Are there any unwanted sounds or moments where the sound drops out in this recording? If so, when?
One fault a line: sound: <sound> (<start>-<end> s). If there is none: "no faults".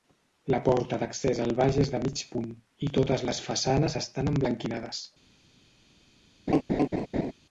sound: laugh (6.5-7.3 s)